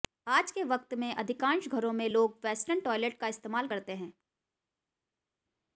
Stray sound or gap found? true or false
false